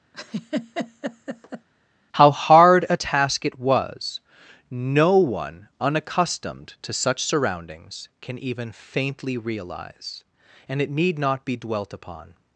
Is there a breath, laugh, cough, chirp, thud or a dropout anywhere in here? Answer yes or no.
yes